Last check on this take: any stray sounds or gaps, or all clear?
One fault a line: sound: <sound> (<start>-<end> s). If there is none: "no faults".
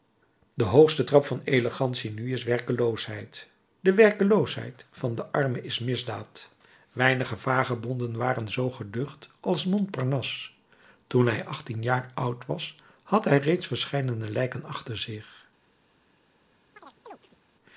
sound: chirp (16.8-17.4 s)